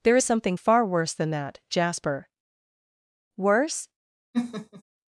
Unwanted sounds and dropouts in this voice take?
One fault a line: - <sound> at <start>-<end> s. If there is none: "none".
- laugh at 4.3-4.8 s